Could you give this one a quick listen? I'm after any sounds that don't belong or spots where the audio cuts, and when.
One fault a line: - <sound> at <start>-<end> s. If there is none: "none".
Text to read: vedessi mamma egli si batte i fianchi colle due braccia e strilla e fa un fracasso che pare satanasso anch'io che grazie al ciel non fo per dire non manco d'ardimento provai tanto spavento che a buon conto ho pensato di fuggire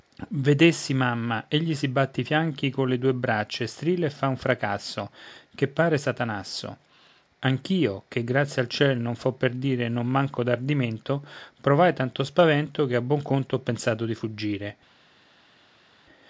none